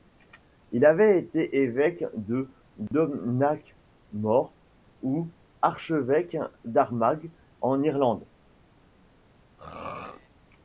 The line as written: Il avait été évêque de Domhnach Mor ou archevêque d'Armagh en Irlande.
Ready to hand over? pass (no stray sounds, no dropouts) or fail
fail